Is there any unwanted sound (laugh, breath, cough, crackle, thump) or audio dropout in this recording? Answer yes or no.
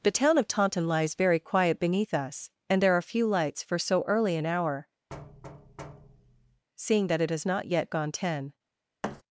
yes